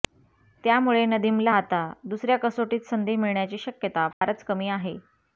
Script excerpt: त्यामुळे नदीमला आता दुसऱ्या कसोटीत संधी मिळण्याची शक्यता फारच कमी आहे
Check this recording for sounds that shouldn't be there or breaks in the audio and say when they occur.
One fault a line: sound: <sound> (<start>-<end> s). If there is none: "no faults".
sound: dropout (4.1-4.2 s)